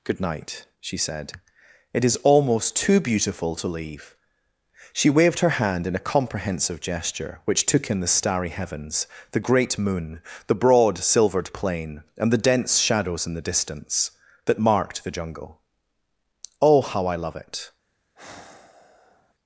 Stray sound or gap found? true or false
true